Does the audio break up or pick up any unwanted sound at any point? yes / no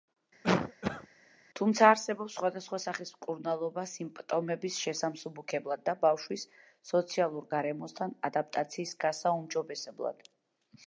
yes